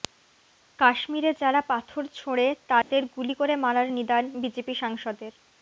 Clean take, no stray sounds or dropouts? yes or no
no